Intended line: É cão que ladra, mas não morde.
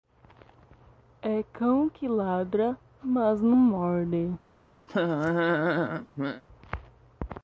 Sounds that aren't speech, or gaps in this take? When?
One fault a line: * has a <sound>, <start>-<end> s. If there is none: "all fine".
* has a laugh, 4.9-6.4 s